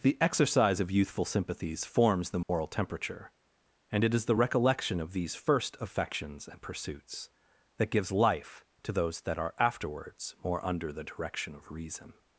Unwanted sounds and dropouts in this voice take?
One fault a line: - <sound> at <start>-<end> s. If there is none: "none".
- dropout at 2.4-2.5 s